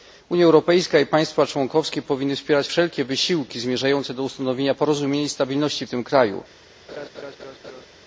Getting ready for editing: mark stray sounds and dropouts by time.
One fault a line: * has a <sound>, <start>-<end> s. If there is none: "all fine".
* has a laugh, 6.9-7.9 s